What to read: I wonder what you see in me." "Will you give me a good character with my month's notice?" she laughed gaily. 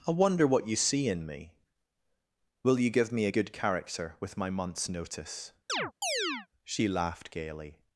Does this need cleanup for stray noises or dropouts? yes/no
yes